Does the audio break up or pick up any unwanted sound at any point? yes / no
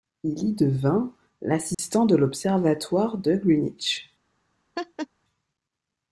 yes